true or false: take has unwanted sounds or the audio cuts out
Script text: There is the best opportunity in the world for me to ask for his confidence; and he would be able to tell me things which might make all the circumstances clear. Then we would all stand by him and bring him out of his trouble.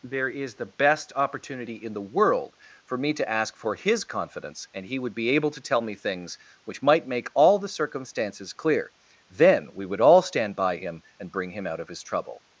false